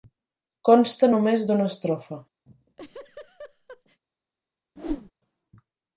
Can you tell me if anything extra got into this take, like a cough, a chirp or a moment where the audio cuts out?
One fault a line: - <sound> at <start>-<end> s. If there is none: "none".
- laugh at 2.5-4.0 s
- whoosh at 4.8-5.1 s